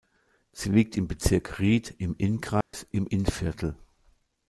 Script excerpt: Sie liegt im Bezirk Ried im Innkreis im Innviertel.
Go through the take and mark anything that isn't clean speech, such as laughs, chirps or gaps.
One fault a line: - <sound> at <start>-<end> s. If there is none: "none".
- dropout at 2.6-2.7 s